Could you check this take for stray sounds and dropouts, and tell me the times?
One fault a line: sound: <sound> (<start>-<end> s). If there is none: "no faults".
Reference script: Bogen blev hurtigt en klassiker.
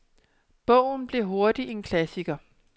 no faults